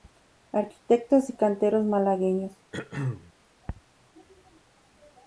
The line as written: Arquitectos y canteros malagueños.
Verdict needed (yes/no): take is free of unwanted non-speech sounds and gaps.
no